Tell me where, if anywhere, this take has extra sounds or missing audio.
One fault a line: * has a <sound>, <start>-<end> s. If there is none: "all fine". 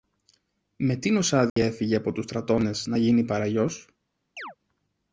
* has a dropout, 1.5-1.6 s
* has a chirp, 4.4-4.6 s